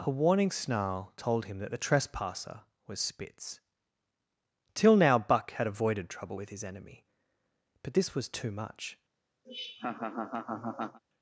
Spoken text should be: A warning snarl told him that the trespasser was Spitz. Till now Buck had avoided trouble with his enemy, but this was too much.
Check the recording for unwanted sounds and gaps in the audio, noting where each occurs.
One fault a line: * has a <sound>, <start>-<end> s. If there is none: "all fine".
* has a laugh, 9.4-11.0 s